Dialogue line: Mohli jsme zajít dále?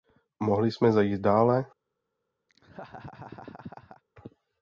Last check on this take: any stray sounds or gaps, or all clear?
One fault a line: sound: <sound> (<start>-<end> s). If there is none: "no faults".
sound: laugh (2.5-4.0 s)